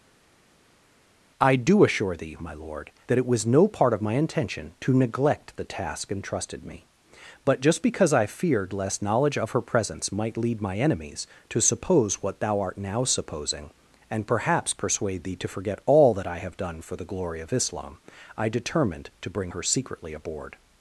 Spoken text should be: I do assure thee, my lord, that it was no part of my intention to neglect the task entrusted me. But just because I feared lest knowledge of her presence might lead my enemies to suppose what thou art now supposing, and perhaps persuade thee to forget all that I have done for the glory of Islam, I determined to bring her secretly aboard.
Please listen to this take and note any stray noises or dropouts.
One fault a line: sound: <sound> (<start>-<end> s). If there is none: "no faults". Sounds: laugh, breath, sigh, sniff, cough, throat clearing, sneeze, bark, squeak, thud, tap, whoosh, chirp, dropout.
no faults